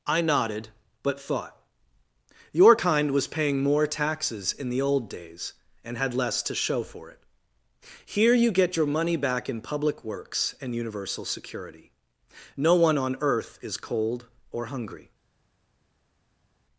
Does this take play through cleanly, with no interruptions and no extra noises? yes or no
yes